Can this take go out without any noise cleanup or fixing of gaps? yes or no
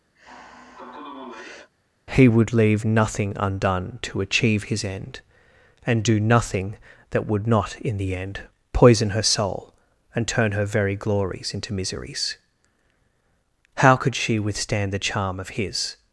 no